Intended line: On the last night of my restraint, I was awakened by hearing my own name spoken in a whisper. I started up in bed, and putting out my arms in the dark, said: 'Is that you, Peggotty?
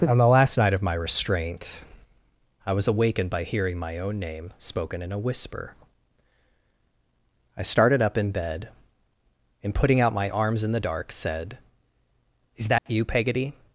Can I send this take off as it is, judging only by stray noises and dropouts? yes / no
no